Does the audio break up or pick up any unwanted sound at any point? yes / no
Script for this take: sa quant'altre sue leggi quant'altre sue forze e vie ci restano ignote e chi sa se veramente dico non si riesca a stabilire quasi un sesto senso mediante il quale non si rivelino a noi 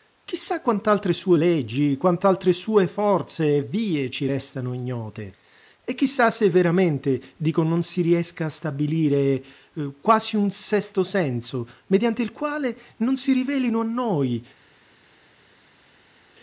no